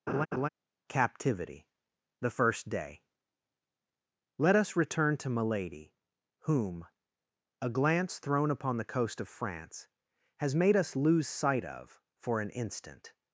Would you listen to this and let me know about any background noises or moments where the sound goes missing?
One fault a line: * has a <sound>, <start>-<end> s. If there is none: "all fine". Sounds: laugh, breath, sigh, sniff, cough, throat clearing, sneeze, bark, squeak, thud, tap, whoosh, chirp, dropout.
* has a laugh, 0.1-0.5 s